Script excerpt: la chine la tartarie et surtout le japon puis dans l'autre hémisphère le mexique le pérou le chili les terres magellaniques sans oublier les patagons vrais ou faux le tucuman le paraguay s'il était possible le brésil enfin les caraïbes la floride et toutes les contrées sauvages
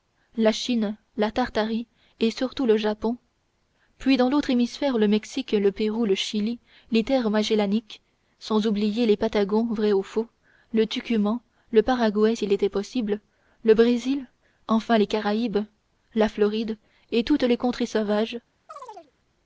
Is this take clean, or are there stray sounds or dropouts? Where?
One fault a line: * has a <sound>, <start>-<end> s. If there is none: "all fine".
* has a chirp, 18.7-19.1 s